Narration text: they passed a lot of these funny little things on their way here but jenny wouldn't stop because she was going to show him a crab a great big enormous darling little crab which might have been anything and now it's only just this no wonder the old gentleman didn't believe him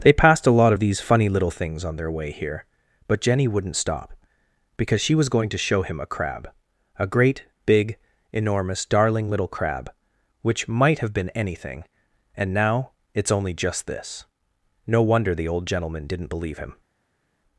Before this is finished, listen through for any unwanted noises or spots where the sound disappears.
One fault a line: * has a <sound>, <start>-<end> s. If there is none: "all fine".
all fine